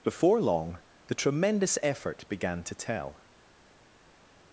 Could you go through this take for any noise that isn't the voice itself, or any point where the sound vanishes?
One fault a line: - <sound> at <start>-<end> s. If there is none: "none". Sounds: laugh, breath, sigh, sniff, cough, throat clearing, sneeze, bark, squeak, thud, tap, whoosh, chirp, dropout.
none